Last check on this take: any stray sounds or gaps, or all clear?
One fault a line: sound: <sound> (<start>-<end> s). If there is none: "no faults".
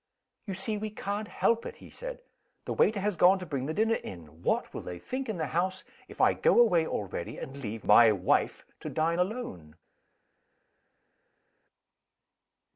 no faults